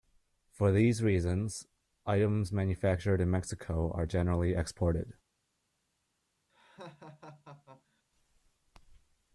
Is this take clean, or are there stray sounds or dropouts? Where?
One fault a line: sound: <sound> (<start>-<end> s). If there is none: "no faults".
sound: laugh (6.5-8.0 s)